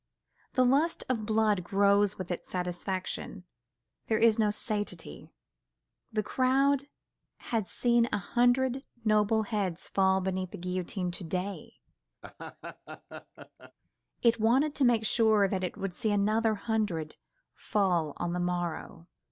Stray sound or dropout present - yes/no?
yes